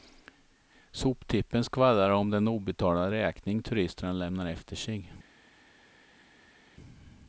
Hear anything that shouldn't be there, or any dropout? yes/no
no